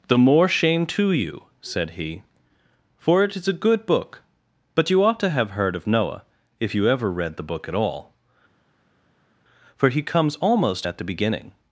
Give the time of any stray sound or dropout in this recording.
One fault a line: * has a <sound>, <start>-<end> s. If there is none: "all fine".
all fine